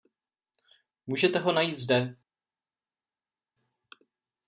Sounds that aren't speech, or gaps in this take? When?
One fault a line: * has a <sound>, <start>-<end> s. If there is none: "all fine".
all fine